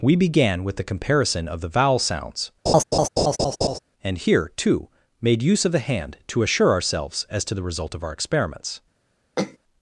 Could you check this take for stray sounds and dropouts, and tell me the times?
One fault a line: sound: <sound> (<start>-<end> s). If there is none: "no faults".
sound: laugh (2.7-3.8 s)
sound: throat clearing (9.4-9.6 s)